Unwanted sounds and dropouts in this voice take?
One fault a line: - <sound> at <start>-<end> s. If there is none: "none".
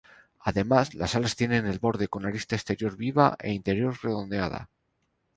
none